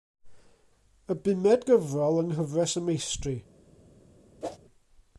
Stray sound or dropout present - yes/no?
yes